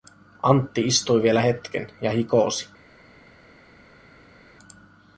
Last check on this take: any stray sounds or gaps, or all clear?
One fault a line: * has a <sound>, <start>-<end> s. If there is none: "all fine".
all fine